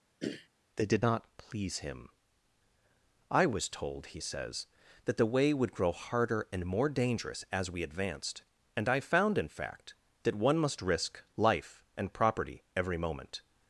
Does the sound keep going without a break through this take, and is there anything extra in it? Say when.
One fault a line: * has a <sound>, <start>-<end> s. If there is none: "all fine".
* has a throat clearing, 0.2-0.5 s